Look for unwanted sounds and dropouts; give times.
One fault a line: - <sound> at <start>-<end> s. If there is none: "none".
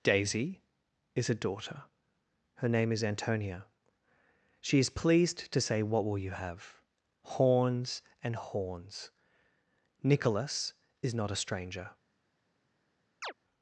- chirp at 13.2-13.3 s